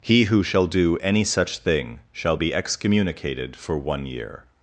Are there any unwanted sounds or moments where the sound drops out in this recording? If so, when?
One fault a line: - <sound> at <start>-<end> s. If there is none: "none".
none